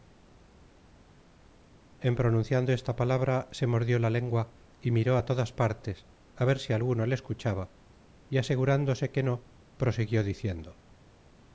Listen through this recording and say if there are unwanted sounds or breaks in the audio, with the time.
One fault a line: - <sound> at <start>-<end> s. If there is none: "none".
none